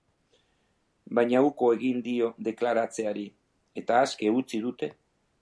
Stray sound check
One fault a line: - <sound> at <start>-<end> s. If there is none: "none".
none